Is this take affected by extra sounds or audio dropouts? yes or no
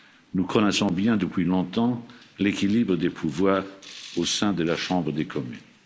no